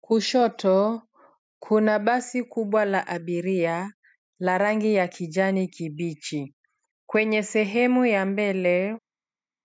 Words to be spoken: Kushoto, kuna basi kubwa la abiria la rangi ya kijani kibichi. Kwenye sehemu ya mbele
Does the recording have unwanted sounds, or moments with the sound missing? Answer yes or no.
no